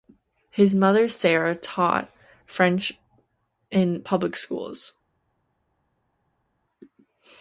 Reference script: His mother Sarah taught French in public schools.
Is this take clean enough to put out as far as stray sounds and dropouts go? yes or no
yes